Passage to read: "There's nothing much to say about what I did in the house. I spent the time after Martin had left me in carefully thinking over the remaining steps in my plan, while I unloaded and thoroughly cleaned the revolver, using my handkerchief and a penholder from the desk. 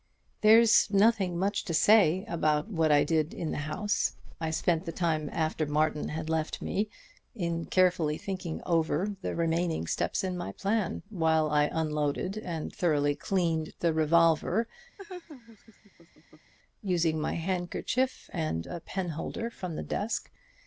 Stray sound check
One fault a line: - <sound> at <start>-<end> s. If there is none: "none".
- laugh at 15.0-16.5 s